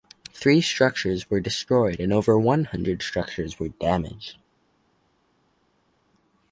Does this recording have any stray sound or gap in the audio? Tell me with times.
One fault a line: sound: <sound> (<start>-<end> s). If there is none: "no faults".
no faults